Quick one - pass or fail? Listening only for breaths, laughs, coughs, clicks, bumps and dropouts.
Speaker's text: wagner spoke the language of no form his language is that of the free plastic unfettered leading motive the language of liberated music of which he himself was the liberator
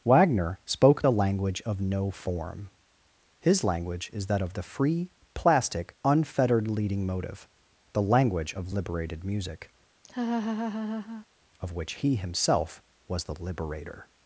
fail